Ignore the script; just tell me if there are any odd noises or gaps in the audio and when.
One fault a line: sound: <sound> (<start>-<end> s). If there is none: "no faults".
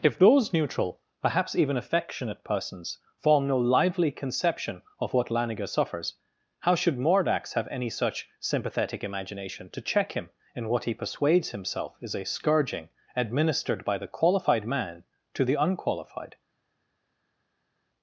no faults